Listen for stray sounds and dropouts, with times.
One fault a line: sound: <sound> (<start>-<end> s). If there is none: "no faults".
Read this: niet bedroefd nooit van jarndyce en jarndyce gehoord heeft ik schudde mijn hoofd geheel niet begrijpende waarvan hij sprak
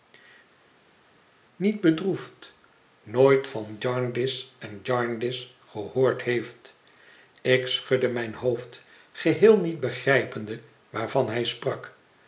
no faults